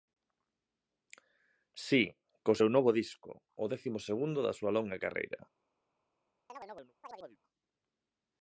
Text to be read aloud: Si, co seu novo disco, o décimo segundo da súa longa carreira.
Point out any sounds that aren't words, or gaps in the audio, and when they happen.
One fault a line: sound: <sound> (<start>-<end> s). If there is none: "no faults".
sound: chirp (6.5-7.4 s)